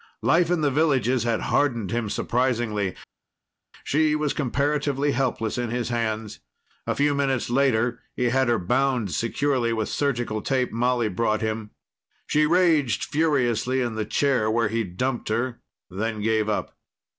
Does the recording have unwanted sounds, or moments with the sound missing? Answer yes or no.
no